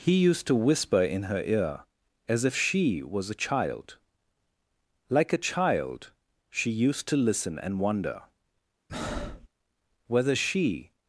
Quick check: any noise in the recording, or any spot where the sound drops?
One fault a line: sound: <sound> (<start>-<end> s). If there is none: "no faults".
sound: breath (8.9-9.5 s)